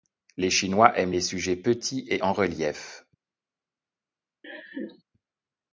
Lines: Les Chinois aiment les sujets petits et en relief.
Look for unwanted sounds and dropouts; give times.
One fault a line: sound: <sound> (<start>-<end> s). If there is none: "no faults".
sound: laugh (4.4-5.0 s)